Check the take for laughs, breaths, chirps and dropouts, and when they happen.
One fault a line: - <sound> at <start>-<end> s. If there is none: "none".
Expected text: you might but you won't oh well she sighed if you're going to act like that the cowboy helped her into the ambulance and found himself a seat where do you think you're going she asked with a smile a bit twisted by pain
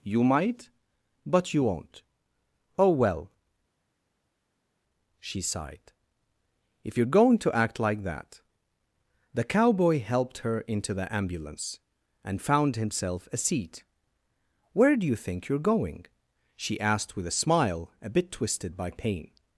none